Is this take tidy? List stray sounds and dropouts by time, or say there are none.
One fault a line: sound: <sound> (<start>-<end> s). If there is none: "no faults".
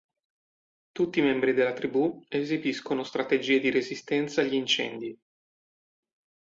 no faults